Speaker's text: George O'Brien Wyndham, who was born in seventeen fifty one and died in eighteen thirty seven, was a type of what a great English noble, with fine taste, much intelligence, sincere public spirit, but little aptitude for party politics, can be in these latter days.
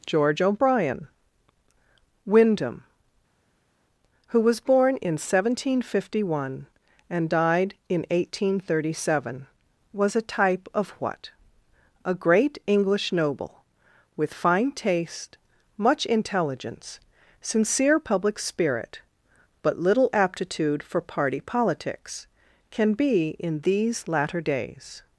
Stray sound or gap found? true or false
false